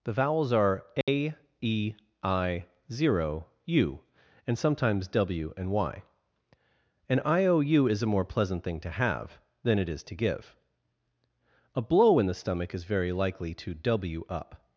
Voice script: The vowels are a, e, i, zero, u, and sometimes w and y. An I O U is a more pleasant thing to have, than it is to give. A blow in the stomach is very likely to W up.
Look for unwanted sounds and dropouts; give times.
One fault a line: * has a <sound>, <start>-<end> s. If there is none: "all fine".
* has a dropout, 1.0-1.1 s